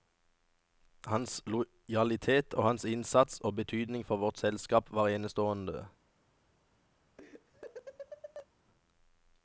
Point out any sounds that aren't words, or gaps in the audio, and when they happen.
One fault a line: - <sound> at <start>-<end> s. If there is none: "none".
- laugh at 7.2-8.5 s